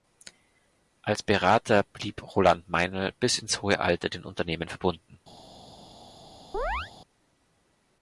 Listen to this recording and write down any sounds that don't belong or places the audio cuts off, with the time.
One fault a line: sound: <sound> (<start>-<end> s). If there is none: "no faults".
sound: chirp (6.5-6.9 s)